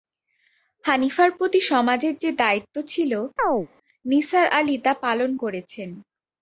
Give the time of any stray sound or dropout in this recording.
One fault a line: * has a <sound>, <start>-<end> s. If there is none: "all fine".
* has a chirp, 3.4-3.7 s